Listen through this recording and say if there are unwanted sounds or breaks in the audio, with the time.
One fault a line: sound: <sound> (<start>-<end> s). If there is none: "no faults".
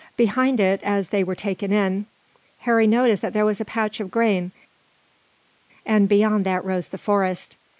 no faults